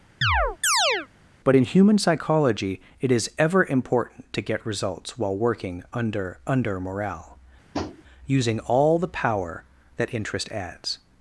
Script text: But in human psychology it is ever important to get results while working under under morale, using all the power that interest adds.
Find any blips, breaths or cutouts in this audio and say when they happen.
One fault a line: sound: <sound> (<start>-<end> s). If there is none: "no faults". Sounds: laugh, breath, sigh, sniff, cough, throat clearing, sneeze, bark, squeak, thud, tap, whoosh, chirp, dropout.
sound: chirp (0.2-1.1 s)
sound: tap (7.7-8.0 s)